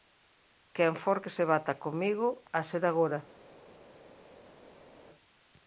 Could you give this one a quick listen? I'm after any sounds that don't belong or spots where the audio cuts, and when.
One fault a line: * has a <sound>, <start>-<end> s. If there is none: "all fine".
all fine